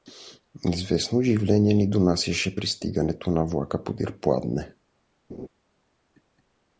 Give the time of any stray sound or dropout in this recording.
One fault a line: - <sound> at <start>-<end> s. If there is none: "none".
- laugh at 5.3-5.5 s